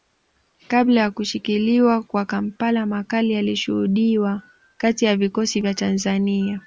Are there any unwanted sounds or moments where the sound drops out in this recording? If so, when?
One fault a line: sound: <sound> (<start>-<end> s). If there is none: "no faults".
no faults